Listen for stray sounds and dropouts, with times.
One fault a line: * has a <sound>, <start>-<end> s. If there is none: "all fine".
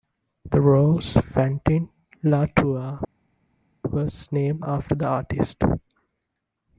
all fine